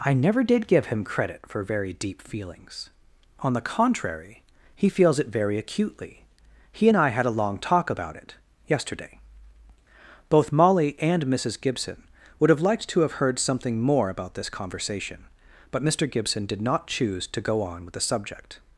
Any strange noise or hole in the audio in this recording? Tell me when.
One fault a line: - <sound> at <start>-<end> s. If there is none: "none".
none